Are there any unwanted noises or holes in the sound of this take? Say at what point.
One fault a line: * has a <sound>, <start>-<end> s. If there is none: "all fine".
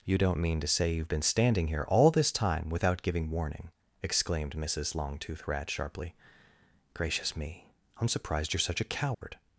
* has a dropout, 9.1-9.2 s